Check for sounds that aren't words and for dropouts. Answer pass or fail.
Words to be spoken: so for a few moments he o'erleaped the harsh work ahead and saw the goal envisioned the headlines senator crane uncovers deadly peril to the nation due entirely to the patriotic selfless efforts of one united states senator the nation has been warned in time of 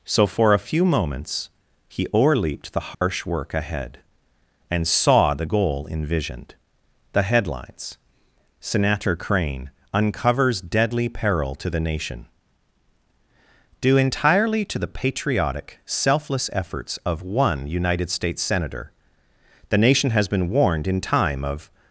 fail